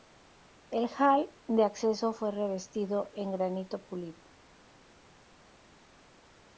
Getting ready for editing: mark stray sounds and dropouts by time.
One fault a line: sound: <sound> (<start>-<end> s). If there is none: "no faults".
no faults